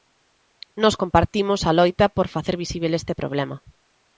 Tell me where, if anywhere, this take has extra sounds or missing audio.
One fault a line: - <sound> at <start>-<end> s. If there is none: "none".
none